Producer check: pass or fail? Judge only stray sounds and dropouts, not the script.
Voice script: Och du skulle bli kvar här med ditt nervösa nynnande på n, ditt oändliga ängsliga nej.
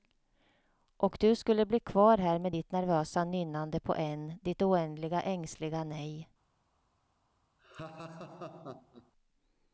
fail